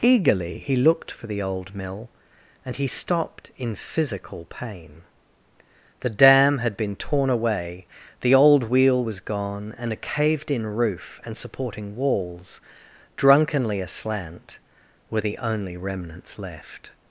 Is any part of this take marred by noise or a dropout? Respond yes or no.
no